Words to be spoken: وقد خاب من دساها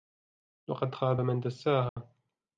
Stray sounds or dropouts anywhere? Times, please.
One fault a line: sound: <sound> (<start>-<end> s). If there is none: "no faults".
sound: dropout (1.9-2.0 s)